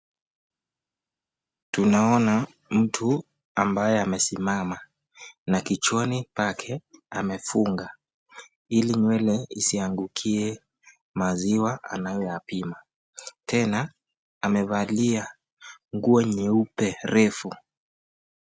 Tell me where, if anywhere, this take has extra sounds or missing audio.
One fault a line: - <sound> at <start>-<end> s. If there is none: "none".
none